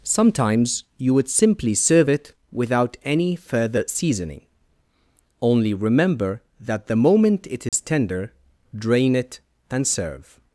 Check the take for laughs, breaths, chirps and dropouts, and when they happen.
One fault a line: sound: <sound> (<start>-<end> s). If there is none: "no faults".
sound: dropout (7.7-7.7 s)